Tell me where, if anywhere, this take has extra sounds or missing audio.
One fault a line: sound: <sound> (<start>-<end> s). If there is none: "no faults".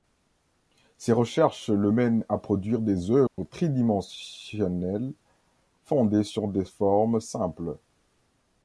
sound: dropout (3.3-3.4 s)